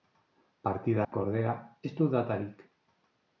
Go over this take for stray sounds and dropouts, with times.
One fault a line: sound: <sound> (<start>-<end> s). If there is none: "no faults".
sound: dropout (1.0-1.1 s)